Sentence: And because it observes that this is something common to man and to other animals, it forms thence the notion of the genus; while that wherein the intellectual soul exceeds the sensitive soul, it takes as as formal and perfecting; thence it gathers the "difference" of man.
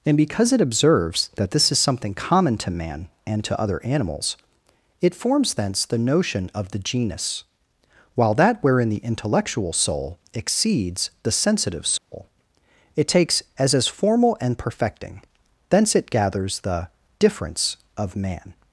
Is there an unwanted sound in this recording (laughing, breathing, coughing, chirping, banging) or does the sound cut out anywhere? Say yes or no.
yes